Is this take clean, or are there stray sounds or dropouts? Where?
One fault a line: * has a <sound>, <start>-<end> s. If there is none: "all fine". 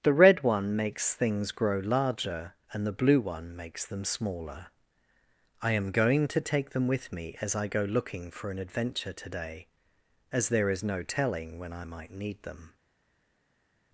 all fine